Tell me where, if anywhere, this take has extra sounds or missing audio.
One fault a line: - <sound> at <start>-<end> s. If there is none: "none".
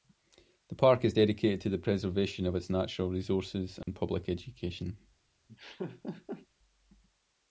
- dropout at 3.8-3.9 s
- laugh at 5.5-6.5 s